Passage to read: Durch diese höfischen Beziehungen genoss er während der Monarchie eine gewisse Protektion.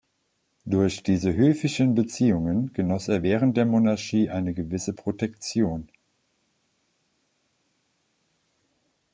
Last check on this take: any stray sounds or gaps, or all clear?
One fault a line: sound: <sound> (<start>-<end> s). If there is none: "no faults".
no faults